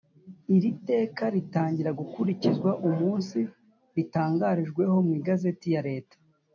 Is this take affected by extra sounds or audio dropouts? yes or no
no